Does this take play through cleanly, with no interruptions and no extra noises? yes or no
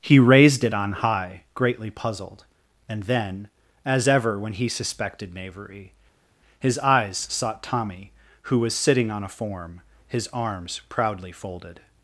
yes